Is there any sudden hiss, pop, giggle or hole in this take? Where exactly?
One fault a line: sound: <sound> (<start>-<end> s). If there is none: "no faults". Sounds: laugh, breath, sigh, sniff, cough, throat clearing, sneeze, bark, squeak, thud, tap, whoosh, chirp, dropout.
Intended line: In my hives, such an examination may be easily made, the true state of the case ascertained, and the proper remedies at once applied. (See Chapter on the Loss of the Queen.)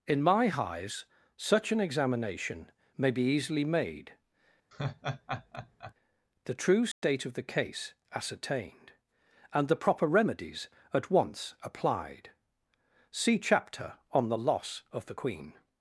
sound: laugh (4.7-5.9 s)
sound: dropout (6.9-7.0 s)